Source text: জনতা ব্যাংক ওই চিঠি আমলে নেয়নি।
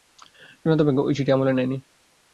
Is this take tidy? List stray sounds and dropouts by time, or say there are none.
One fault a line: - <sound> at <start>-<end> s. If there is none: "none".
none